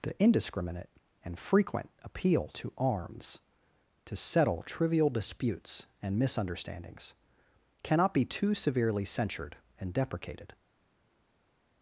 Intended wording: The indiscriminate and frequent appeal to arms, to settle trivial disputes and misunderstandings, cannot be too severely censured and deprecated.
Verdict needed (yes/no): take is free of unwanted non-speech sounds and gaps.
yes